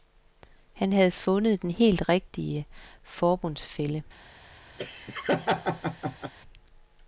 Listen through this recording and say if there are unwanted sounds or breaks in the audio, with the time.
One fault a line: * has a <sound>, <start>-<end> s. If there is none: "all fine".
* has a laugh, 4.8-6.3 s